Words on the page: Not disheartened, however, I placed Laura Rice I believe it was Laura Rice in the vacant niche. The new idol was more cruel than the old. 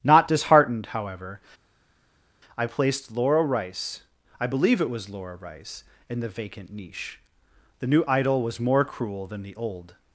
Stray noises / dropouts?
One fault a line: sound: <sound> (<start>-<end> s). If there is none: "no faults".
no faults